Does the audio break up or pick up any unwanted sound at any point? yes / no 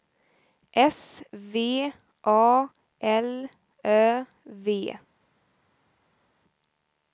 no